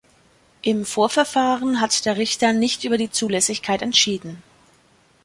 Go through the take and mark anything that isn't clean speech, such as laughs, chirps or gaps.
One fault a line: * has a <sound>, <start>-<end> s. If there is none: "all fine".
all fine